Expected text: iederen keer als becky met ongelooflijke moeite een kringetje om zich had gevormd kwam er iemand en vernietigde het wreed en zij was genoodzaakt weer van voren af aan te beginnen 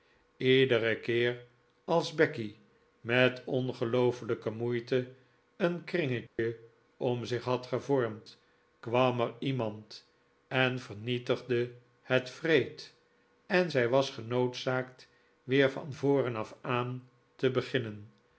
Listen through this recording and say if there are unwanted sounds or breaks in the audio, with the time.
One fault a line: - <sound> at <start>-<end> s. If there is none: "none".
- dropout at 6.3-6.4 s